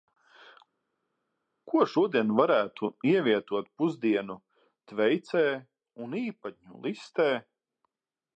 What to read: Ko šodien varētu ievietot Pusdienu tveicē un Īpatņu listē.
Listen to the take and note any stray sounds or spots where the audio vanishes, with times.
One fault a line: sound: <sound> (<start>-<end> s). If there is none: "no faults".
no faults